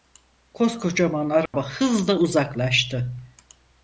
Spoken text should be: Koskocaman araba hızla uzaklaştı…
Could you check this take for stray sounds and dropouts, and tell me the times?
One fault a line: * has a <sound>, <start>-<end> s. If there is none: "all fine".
* has a dropout, 1.5-1.5 s